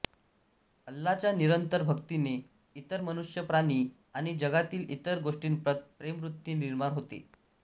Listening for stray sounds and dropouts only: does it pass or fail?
pass